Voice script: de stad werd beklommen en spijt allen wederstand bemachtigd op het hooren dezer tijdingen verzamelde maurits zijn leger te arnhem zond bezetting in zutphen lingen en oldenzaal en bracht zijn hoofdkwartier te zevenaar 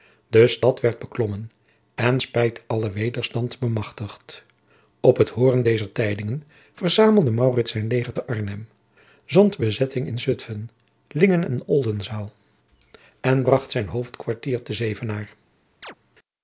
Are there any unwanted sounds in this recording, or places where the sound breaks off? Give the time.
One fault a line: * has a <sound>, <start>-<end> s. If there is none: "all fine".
* has a chirp, 15.8-16.0 s